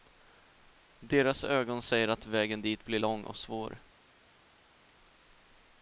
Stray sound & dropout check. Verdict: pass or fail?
pass